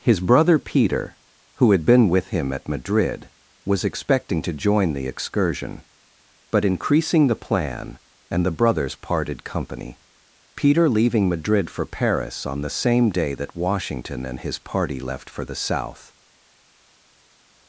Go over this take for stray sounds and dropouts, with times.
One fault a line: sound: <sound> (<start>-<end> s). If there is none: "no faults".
no faults